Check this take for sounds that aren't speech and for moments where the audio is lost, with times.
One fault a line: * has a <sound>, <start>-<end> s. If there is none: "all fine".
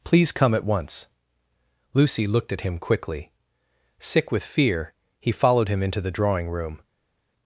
all fine